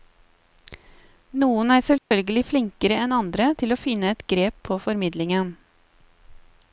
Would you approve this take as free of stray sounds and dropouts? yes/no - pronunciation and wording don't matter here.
no